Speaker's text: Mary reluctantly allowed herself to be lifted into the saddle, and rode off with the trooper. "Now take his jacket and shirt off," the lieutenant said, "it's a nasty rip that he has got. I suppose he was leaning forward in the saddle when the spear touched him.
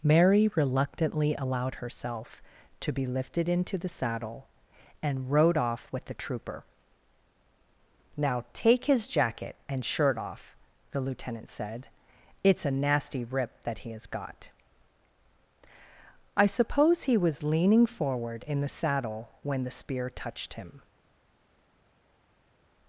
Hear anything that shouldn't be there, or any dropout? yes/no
no